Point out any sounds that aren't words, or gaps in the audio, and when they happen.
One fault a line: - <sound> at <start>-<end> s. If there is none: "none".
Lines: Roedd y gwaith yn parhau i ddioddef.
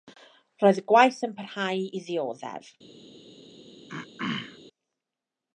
- throat clearing at 3.9-4.6 s